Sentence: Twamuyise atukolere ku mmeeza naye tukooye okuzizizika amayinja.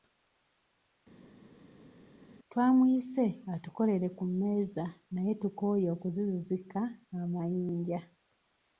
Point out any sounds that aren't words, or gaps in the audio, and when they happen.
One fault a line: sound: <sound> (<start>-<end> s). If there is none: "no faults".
no faults